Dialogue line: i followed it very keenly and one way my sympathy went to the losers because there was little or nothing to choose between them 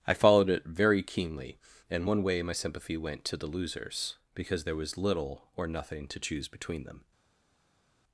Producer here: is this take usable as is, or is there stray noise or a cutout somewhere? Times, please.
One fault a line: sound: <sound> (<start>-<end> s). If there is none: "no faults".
no faults